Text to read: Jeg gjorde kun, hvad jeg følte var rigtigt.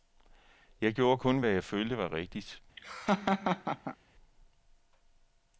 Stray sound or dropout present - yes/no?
yes